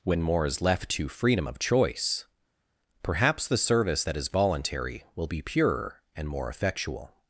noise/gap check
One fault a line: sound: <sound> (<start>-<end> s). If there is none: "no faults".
no faults